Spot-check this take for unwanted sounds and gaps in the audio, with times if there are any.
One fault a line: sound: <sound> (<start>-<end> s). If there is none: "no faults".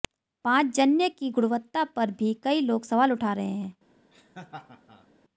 sound: laugh (4.1-5.1 s)